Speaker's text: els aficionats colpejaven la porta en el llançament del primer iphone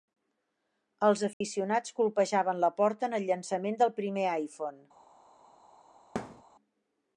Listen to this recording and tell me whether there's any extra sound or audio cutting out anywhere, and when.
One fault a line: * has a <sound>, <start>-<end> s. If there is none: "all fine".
* has a dropout, 1.3-1.4 s
* has a thud, 6.2-6.4 s